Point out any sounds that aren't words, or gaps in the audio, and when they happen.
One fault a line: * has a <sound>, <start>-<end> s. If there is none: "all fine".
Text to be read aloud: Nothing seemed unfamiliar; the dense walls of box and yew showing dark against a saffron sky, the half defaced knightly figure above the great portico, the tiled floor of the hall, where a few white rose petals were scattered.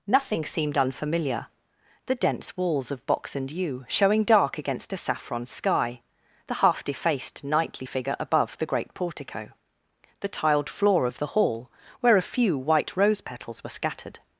all fine